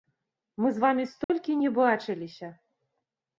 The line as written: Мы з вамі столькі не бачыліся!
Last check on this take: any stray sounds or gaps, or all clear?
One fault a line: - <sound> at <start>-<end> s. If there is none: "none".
- dropout at 1.2-1.3 s